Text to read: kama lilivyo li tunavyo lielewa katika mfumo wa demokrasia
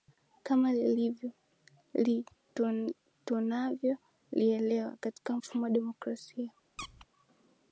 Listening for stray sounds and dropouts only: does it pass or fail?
fail